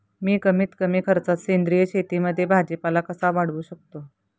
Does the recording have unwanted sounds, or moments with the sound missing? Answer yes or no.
no